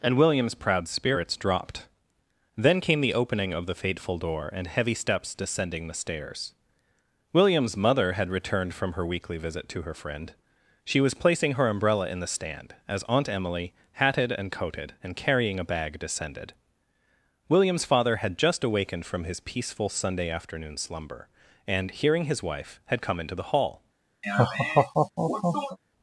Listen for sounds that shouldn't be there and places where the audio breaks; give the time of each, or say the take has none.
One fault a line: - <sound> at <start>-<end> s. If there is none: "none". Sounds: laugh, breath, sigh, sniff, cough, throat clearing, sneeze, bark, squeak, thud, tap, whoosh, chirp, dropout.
- laugh at 24.2-25.8 s